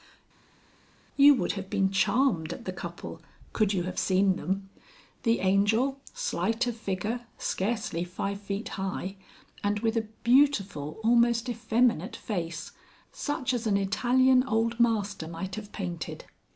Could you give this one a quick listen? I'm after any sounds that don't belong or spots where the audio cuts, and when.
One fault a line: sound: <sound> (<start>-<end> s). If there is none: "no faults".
no faults